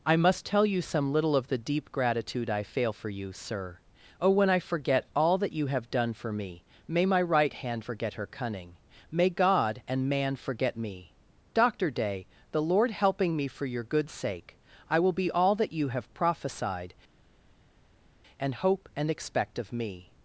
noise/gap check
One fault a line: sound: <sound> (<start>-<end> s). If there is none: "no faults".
no faults